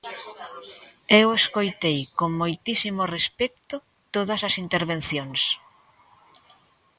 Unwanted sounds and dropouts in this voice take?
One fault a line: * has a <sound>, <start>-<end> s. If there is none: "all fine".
all fine